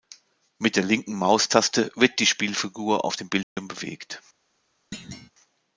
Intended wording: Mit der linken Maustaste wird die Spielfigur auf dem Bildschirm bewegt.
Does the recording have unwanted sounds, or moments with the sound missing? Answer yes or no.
yes